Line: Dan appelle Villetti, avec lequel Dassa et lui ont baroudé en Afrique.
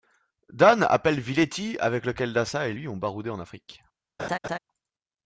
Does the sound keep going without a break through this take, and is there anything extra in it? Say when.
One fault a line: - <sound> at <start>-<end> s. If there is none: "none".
- laugh at 4.2-4.6 s